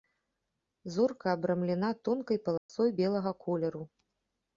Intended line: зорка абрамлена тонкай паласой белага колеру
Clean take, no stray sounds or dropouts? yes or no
no